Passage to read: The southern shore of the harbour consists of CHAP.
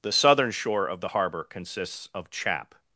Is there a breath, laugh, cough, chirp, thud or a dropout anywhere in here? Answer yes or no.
no